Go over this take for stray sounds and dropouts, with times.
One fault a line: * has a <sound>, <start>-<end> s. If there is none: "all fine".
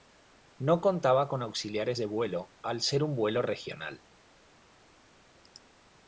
all fine